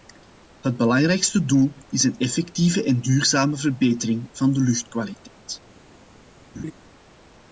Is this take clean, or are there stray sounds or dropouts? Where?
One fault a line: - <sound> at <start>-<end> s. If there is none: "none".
- laugh at 6.5-6.7 s